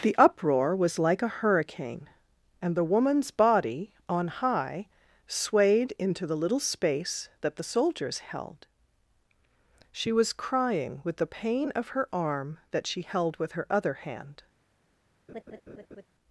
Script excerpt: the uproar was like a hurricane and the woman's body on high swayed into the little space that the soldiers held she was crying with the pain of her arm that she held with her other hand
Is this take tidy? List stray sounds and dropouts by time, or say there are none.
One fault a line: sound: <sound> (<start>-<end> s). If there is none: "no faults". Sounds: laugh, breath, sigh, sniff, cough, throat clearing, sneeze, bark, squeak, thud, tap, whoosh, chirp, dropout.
sound: laugh (15.3-16.1 s)